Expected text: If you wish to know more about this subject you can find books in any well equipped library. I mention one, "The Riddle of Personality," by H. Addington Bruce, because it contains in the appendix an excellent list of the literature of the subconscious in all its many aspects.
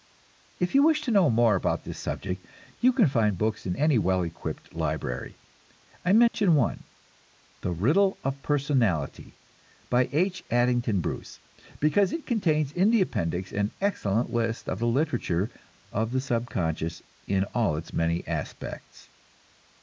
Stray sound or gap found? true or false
true